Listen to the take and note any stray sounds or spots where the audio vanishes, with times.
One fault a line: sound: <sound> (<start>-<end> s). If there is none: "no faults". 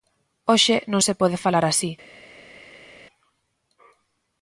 no faults